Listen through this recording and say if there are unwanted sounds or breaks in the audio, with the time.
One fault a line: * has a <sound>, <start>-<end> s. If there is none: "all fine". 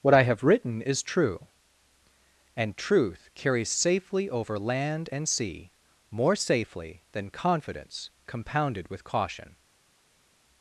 all fine